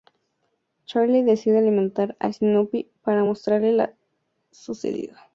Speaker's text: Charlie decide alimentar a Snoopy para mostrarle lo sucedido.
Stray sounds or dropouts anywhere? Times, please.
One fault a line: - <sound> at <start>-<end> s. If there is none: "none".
none